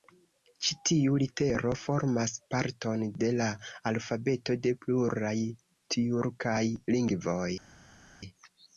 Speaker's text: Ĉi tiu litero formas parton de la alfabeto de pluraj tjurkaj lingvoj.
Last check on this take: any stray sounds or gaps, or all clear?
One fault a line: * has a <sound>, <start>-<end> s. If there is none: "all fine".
all fine